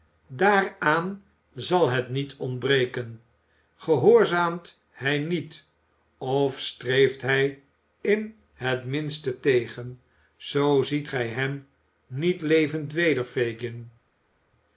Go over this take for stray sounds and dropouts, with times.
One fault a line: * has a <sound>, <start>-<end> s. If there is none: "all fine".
all fine